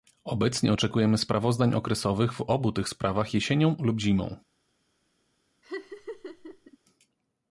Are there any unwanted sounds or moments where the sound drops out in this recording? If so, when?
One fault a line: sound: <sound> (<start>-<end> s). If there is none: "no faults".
sound: laugh (5.6-6.8 s)